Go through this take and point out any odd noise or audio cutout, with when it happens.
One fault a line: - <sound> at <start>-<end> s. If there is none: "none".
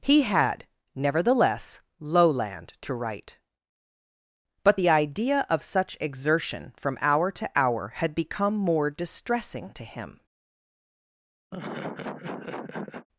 - laugh at 11.5-13.1 s